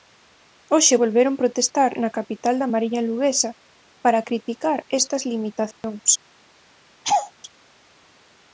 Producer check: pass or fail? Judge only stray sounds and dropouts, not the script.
fail